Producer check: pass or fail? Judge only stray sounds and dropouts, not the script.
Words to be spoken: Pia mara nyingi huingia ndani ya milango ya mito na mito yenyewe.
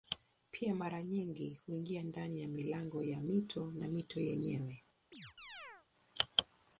fail